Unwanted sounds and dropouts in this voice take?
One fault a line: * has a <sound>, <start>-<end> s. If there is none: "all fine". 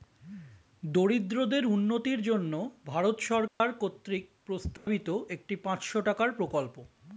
* has a dropout, 3.5-3.6 s
* has a dropout, 4.8-4.9 s